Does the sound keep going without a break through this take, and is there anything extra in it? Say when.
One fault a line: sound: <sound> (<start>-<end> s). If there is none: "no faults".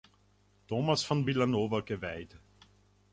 no faults